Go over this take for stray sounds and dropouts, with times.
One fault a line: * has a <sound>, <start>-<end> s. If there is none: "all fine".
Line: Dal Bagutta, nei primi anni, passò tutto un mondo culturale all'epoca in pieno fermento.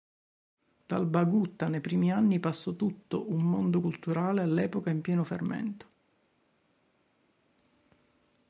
all fine